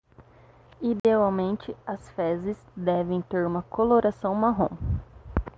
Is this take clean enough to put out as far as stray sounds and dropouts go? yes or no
no